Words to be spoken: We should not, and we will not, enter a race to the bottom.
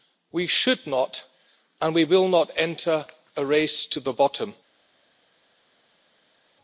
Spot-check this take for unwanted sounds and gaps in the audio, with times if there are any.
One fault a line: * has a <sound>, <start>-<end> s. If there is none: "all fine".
all fine